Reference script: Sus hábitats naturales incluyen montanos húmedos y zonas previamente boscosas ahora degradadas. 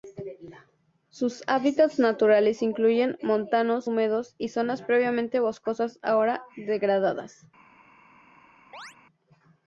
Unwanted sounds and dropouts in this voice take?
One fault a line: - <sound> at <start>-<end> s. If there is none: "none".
- chirp at 8.7-9.0 s